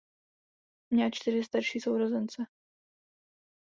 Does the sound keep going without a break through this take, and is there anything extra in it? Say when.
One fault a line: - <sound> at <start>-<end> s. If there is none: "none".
none